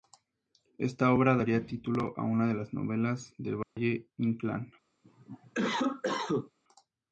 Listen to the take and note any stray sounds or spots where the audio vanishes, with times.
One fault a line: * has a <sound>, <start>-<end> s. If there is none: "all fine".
* has a dropout, 3.6-3.8 s
* has a cough, 5.0-6.5 s